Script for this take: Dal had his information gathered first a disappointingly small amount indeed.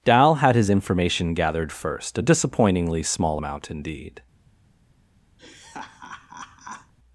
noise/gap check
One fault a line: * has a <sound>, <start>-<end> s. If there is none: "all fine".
* has a laugh, 5.4-6.9 s